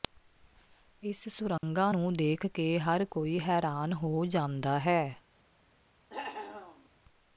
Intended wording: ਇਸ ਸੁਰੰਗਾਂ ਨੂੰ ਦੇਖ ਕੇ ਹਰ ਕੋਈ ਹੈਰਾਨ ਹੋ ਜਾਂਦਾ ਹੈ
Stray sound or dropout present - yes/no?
yes